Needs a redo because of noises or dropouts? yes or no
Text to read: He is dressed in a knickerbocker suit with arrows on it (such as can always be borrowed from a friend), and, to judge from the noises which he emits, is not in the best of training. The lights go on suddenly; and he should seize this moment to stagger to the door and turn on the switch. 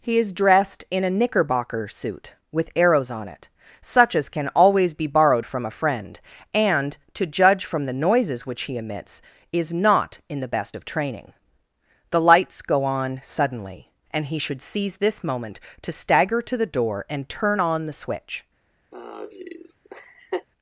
yes